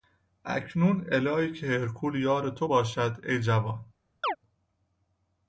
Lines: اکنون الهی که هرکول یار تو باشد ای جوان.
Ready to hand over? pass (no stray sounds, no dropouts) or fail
fail